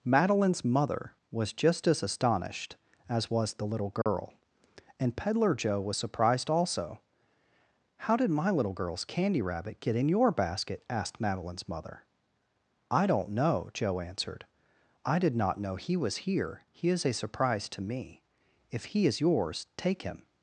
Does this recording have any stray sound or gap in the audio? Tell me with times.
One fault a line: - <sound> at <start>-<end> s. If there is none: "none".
- dropout at 4.0-4.1 s